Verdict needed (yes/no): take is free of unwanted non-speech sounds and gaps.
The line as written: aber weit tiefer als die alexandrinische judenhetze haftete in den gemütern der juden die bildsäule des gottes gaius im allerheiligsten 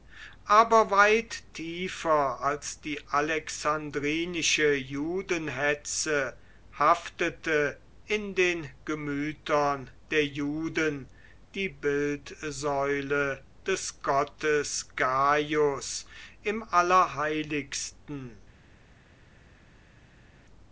yes